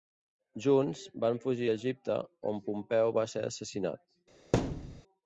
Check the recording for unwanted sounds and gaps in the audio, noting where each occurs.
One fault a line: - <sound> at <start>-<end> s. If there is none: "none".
- thud at 4.5-5.0 s